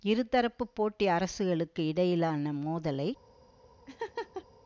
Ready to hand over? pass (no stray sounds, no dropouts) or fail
fail